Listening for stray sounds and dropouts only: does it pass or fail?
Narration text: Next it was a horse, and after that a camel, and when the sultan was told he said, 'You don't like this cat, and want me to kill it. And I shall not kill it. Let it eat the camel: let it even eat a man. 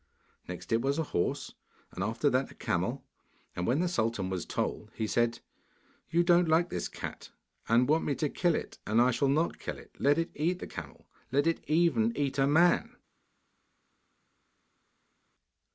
pass